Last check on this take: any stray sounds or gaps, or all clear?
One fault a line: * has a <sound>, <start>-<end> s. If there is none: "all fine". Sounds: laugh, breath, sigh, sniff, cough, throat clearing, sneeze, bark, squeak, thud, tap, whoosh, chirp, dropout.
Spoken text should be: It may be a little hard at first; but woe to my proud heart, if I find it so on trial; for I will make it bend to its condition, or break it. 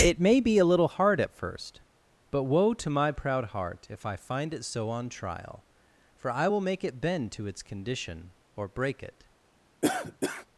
* has a cough, 9.8-10.5 s